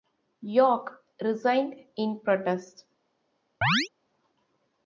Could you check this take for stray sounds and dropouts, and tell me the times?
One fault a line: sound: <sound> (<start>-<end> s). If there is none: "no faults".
sound: chirp (3.6-3.9 s)